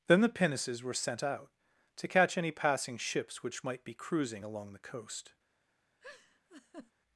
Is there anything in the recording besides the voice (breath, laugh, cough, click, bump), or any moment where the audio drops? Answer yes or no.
yes